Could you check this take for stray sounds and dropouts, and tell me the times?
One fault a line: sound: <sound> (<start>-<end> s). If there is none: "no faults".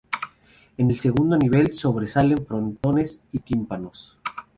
sound: dropout (2.8-2.8 s)